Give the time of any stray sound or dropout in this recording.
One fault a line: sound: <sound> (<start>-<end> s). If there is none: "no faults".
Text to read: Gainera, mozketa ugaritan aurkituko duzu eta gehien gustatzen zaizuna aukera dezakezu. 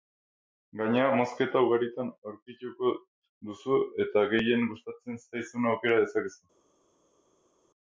no faults